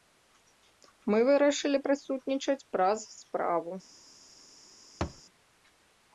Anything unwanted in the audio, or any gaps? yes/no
yes